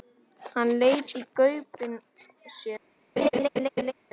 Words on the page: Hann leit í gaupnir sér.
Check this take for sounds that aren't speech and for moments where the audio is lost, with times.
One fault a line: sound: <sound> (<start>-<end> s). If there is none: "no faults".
sound: laugh (3.2-3.9 s)